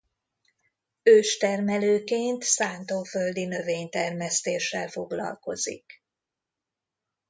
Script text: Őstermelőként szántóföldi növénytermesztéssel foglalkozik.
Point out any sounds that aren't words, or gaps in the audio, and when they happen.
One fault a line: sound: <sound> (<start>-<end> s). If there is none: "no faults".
no faults